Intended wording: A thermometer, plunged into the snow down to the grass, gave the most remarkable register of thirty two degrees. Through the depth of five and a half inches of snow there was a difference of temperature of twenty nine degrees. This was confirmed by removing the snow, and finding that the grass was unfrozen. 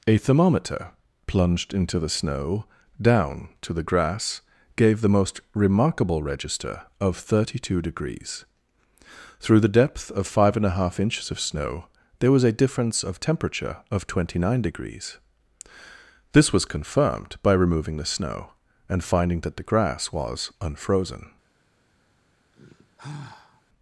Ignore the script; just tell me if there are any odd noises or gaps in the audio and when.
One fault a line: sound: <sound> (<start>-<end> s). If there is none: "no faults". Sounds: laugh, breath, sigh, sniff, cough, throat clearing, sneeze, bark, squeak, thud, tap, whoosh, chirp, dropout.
sound: sigh (22.5-23.6 s)